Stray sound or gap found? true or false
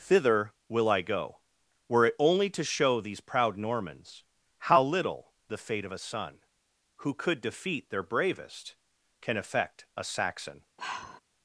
true